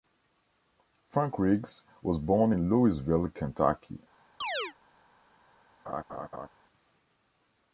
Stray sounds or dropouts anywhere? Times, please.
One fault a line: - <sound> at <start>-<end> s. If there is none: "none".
- chirp at 4.4-4.7 s
- laugh at 5.9-6.5 s